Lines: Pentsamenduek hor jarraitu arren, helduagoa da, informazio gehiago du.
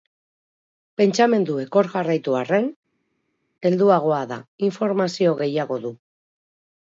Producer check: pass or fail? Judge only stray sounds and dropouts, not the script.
pass